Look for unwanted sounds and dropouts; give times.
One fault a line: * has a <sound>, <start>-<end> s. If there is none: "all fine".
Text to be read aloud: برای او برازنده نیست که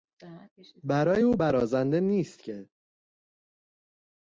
all fine